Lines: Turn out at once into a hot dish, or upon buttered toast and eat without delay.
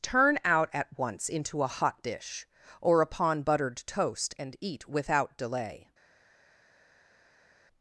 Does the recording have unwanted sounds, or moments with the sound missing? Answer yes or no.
no